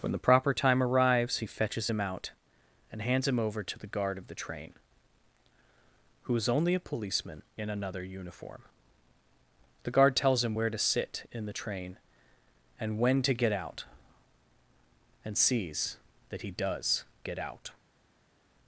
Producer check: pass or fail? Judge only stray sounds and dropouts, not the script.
pass